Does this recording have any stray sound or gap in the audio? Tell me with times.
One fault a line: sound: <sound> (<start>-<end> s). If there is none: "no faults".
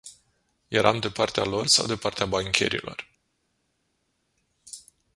no faults